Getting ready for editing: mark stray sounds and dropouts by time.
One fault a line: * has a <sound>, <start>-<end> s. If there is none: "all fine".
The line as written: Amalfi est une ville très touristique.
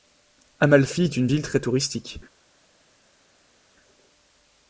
all fine